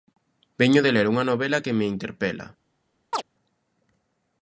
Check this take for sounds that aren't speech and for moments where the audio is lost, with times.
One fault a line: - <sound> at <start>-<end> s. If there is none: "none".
- chirp at 3.1-3.2 s